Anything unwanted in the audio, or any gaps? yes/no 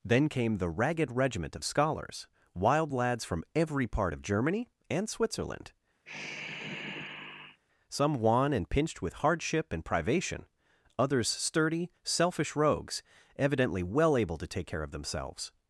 yes